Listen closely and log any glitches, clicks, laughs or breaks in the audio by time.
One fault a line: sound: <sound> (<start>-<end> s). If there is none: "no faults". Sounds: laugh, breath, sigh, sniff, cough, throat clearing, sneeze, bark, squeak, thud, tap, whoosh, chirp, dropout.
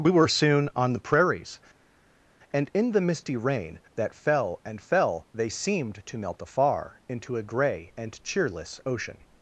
no faults